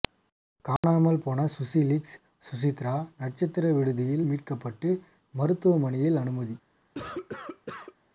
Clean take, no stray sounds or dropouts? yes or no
no